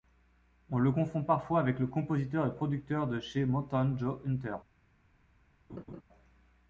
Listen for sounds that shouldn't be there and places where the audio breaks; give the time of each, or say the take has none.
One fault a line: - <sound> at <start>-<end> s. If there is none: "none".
- laugh at 5.7-6.0 s